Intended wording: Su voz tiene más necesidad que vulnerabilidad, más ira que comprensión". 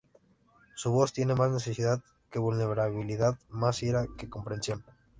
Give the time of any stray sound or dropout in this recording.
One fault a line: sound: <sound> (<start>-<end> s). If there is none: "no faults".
no faults